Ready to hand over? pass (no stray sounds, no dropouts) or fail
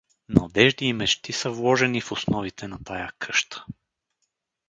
pass